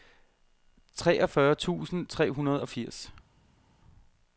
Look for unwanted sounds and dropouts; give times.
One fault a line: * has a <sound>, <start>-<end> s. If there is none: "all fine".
all fine